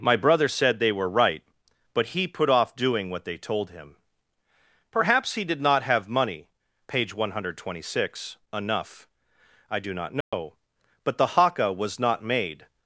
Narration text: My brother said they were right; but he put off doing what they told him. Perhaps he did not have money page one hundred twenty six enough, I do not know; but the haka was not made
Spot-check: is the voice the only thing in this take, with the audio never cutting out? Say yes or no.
no